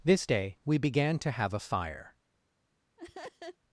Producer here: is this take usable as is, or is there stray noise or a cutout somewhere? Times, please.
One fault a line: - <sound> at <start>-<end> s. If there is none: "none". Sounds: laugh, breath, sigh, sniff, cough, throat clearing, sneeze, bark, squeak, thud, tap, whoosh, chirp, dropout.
- laugh at 3.0-3.6 s